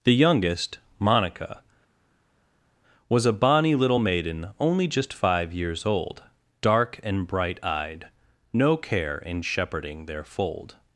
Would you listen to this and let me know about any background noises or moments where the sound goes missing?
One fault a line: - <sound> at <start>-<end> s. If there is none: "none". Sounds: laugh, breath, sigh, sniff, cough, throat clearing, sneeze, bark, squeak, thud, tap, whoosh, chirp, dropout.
none